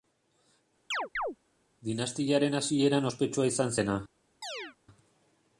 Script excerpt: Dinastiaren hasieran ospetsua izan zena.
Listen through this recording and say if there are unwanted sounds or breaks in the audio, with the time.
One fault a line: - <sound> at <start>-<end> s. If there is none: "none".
- chirp at 0.9-1.4 s
- chirp at 4.4-4.8 s